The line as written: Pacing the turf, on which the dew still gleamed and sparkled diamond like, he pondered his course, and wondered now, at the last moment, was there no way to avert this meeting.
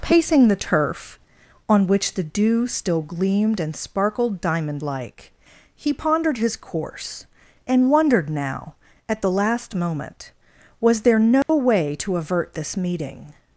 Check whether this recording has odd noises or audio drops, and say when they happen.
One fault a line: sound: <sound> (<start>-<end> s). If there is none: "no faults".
sound: dropout (11.4-11.5 s)